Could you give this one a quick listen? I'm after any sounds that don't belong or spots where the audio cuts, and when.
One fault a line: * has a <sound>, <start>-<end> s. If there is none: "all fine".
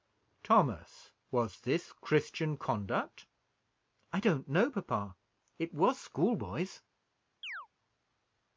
* has a chirp, 7.4-7.7 s